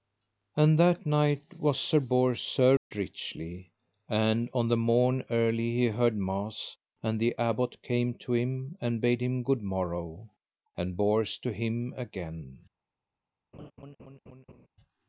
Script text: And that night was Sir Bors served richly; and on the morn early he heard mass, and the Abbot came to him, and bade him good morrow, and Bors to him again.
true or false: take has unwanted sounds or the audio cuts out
true